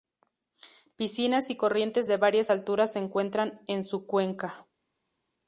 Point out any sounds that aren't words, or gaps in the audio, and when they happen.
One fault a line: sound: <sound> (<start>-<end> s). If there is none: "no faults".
no faults